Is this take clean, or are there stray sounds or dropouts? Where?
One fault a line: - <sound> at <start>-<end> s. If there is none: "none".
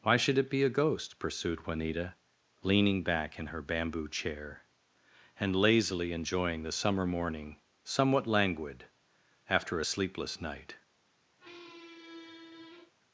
- squeak at 11.4-12.9 s